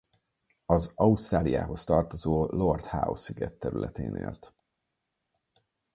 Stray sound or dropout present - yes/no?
no